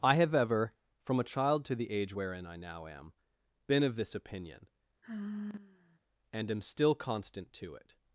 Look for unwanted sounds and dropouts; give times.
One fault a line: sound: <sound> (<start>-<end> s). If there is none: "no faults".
sound: sigh (5.0-6.0 s)